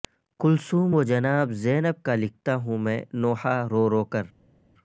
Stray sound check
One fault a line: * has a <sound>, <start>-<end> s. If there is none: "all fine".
all fine